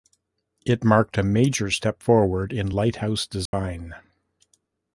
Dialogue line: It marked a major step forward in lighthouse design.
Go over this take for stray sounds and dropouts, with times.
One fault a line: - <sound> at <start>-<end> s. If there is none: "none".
- dropout at 3.5-3.5 s